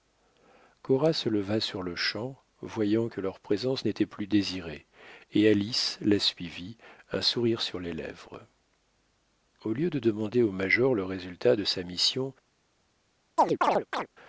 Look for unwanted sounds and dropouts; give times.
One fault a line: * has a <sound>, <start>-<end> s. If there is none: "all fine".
* has a chirp, 13.4-14.1 s